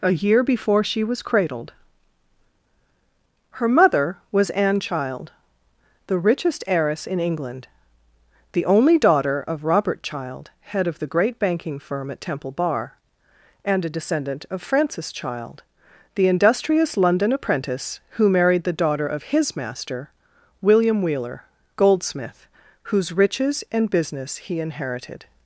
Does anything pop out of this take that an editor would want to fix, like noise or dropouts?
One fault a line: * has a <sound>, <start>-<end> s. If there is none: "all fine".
all fine